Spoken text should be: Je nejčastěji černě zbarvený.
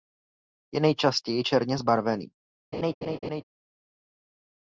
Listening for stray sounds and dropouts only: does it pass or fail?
fail